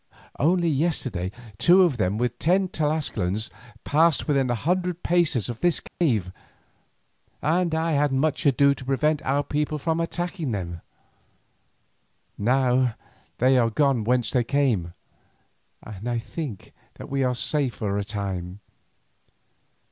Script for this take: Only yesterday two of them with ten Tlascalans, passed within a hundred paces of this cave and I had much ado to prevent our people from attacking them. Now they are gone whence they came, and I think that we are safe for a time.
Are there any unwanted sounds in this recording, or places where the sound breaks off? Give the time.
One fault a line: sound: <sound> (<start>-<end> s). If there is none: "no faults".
sound: dropout (5.9-6.0 s)